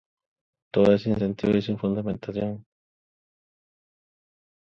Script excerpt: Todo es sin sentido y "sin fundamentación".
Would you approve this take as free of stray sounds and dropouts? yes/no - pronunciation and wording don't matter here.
yes